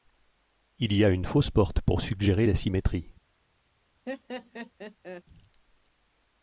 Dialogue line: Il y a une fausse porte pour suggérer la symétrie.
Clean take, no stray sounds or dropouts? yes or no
no